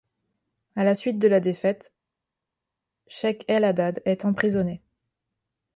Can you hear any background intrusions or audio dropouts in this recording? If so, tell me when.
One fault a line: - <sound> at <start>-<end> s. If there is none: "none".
none